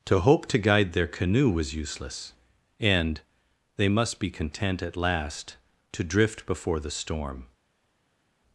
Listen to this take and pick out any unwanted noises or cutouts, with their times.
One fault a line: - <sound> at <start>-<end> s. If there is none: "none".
none